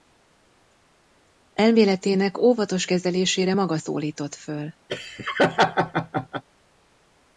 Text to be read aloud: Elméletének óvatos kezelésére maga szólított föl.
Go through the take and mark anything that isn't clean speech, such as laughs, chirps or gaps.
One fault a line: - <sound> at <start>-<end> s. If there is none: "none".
- laugh at 4.9-6.4 s